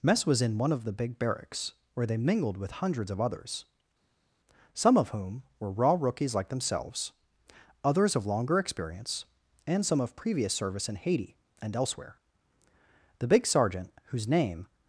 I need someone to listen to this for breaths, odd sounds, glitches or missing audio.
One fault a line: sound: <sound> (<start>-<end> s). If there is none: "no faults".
no faults